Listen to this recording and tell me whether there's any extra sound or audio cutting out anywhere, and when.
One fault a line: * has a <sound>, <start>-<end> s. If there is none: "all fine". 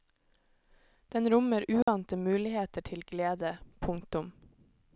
* has a dropout, 1.8-1.9 s